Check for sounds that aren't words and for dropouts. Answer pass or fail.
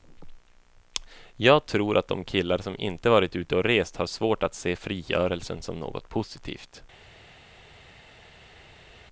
pass